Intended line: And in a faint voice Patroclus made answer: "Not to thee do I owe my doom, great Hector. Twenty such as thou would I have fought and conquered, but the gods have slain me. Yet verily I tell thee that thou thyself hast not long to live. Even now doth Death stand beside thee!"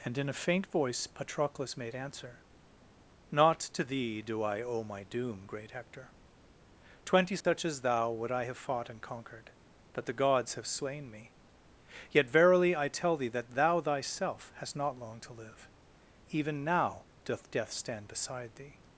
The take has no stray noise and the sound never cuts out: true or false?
false